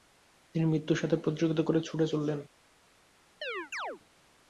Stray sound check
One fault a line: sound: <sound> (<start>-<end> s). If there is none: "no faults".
sound: chirp (3.4-4.0 s)